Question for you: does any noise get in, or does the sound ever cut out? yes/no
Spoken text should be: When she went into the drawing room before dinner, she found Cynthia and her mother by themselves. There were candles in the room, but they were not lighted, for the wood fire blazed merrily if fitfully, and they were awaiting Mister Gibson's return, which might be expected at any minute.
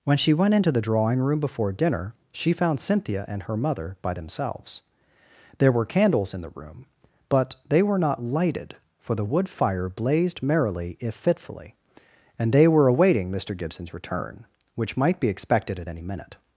no